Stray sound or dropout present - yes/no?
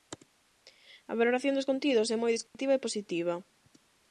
yes